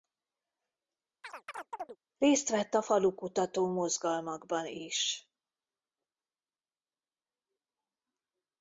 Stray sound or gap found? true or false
true